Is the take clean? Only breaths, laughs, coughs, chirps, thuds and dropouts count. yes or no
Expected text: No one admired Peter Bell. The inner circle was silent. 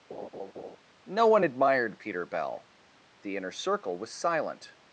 no